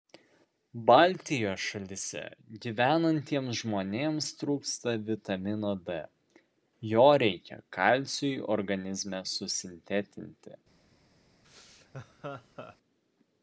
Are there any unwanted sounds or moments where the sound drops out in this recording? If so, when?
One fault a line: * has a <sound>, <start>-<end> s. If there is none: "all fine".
* has a laugh, 11.4-12.8 s